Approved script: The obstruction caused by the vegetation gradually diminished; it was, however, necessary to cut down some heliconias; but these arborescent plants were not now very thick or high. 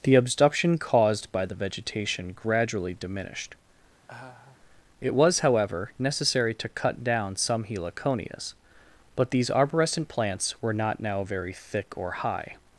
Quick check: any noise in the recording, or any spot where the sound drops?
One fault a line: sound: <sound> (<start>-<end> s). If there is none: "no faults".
sound: laugh (4.1-4.6 s)